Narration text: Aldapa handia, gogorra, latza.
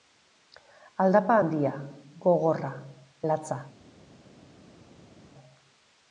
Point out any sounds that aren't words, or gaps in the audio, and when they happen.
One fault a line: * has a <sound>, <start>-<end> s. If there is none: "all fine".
all fine